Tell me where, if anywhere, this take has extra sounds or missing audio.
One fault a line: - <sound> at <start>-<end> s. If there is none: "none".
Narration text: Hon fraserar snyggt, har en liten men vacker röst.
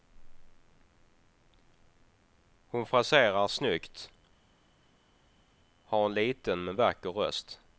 none